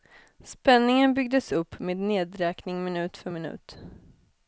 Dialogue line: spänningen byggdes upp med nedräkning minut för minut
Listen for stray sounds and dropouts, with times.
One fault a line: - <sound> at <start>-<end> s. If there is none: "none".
none